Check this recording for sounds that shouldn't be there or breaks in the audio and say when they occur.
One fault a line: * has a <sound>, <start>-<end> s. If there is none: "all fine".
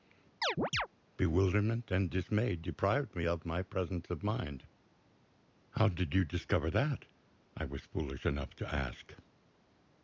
* has a chirp, 0.4-0.9 s